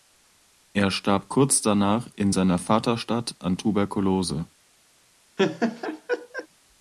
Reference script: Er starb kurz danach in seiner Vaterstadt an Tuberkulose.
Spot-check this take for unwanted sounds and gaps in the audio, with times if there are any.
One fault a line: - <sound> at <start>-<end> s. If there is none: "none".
- laugh at 5.4-6.5 s